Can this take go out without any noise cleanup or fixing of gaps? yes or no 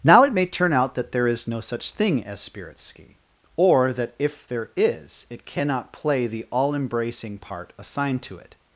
yes